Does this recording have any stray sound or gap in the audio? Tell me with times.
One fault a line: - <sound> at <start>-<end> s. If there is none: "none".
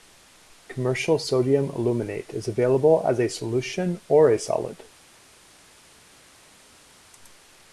none